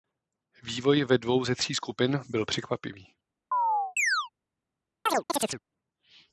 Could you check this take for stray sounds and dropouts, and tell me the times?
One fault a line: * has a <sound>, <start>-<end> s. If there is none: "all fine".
* has a chirp, 3.5-4.3 s
* has a chirp, 5.1-5.6 s